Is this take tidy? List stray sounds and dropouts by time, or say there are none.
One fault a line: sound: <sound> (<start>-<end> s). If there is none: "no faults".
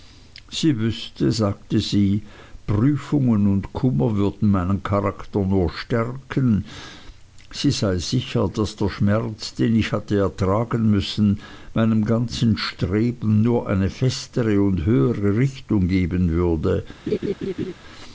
sound: laugh (17.1-17.7 s)